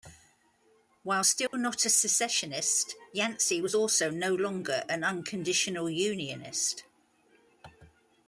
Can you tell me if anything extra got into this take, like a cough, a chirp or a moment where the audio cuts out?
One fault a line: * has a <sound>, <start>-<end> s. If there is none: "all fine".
* has a dropout, 1.5-1.5 s